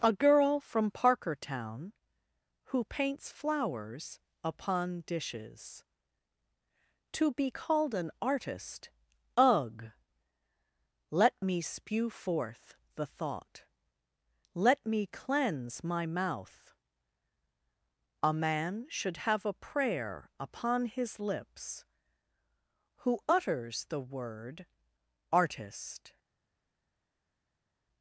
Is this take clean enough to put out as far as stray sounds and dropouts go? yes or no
yes